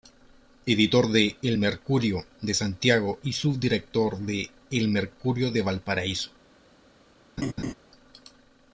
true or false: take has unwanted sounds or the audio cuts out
true